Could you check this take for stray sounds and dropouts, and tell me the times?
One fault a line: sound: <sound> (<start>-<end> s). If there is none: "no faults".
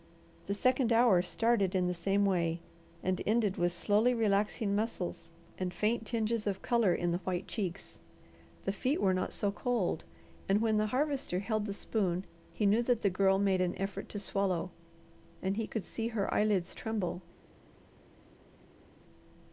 no faults